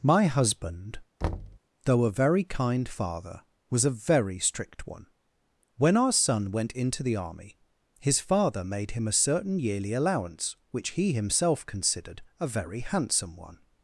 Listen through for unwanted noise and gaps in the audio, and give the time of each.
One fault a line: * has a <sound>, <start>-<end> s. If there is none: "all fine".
* has a thud, 1.2-1.6 s